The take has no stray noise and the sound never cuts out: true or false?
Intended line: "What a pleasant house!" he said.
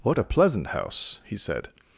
true